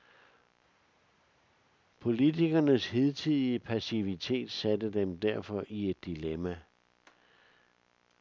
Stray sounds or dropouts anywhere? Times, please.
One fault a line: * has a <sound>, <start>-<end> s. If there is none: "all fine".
all fine